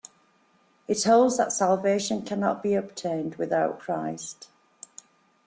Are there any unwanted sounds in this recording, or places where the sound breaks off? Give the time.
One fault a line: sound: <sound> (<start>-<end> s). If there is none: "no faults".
no faults